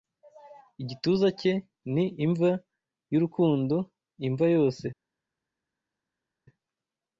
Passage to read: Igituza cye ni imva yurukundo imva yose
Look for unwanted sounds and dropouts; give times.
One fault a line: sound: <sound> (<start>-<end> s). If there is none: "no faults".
no faults